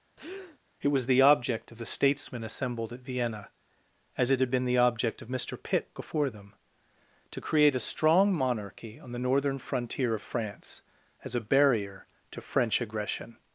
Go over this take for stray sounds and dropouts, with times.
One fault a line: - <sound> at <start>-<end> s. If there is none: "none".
- breath at 0.2-0.6 s